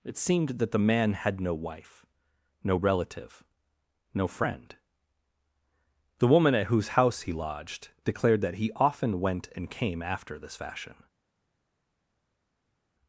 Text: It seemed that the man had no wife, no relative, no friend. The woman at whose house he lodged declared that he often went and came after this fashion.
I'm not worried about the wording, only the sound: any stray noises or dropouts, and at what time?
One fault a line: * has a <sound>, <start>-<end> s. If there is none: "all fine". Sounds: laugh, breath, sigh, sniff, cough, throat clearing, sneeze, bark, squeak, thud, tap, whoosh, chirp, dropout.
all fine